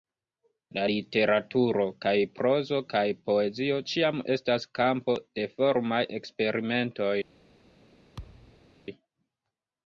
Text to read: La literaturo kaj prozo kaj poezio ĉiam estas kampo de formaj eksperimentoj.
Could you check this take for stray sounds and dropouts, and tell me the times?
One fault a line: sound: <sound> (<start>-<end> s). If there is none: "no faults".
sound: thud (8.2-8.7 s)